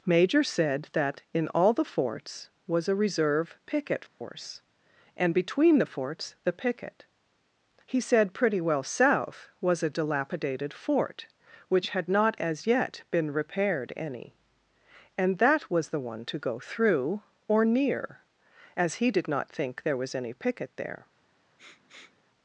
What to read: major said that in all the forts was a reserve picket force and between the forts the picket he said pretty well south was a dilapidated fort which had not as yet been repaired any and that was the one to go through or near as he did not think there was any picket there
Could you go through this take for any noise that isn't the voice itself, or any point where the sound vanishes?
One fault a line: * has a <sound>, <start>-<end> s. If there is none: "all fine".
* has a dropout, 4.1-4.2 s
* has a sniff, 21.6-22.2 s